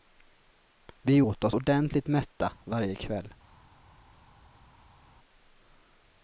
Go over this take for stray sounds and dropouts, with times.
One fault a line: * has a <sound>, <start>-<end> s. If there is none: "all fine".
all fine